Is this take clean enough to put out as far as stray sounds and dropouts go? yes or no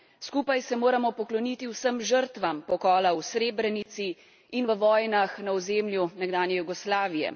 no